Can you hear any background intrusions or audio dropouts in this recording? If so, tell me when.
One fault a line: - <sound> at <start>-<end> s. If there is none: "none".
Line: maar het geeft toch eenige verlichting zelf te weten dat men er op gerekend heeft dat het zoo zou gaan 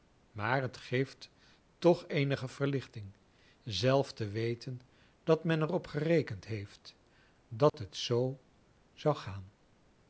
- dropout at 7.7-7.7 s